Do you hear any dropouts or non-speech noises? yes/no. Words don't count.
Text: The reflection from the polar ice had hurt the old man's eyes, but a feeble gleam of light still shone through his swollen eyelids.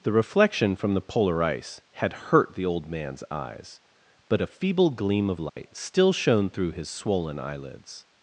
yes